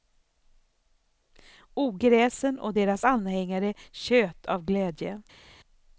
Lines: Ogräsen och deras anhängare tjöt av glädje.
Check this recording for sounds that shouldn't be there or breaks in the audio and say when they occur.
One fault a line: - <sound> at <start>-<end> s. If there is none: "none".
none